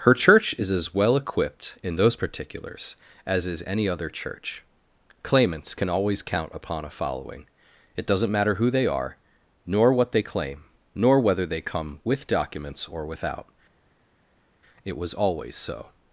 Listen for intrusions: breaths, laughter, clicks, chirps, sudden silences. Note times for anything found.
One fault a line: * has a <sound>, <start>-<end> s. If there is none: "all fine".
all fine